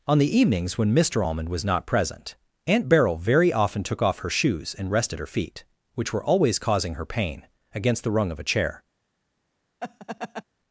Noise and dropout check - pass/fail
fail